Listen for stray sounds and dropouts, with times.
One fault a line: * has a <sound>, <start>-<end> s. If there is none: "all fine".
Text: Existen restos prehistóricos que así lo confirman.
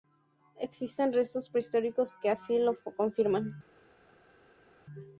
all fine